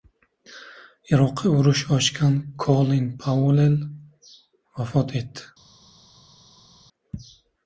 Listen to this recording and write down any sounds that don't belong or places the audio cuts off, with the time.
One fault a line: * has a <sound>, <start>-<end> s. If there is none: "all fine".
all fine